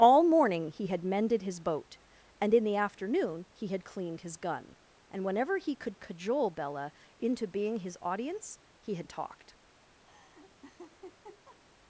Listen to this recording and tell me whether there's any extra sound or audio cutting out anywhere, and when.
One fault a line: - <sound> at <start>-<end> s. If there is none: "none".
- laugh at 10.1-11.6 s